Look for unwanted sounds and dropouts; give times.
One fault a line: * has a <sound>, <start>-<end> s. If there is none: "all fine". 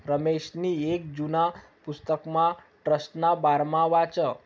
all fine